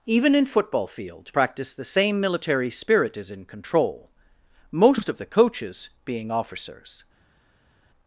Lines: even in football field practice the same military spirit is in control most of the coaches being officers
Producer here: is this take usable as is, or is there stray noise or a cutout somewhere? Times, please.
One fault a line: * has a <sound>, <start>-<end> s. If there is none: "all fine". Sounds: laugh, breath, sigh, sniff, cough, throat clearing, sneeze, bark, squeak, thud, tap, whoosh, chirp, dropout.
all fine